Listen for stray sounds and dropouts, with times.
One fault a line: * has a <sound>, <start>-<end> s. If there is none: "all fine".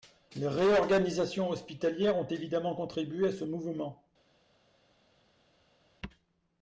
all fine